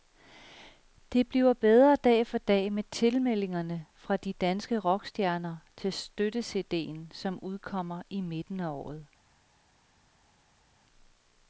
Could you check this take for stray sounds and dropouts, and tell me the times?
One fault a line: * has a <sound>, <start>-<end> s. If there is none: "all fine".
all fine